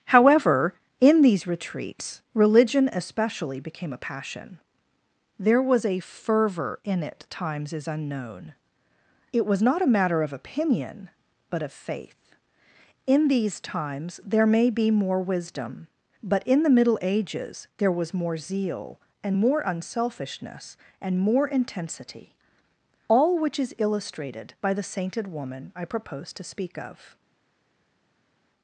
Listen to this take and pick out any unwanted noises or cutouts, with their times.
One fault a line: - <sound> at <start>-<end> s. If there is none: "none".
none